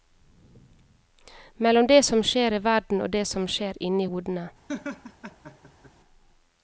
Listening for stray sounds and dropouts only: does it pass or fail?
fail